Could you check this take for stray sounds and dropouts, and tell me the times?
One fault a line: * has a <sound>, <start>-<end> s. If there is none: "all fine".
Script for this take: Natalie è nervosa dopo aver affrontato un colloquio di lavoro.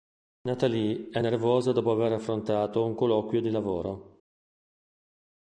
all fine